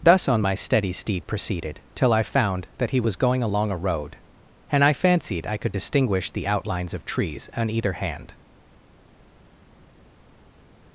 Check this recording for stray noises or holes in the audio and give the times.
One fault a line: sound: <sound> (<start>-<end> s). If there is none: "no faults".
no faults